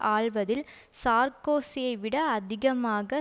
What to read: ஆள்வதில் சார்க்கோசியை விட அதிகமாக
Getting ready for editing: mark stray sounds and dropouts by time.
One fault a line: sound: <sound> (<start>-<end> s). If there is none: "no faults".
no faults